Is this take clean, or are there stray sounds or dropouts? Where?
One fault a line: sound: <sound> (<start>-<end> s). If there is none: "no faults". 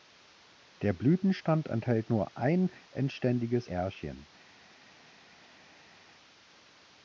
no faults